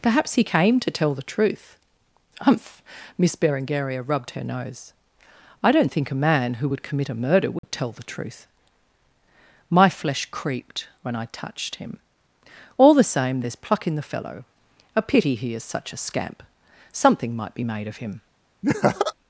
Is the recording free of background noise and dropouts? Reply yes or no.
no